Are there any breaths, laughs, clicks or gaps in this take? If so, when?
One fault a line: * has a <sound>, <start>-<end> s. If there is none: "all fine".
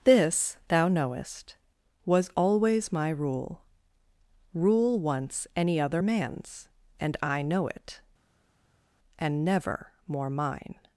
all fine